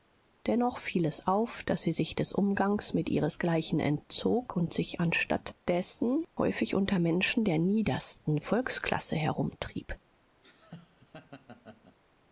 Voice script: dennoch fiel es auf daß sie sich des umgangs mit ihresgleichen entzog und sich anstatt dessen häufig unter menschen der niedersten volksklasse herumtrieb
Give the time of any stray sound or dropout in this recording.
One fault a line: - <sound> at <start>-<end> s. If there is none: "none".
- laugh at 10.4-12.0 s